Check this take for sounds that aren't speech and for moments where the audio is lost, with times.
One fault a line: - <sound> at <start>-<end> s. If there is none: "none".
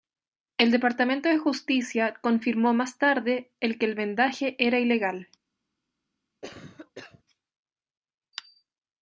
- cough at 6.4-7.2 s